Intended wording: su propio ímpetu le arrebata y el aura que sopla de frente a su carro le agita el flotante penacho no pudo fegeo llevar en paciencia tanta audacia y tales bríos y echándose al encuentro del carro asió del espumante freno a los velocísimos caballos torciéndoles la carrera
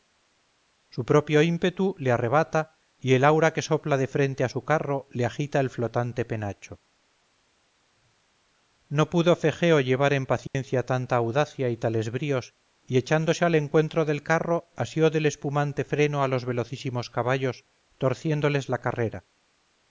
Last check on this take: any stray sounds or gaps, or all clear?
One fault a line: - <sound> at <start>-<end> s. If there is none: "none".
- dropout at 10.5-10.5 s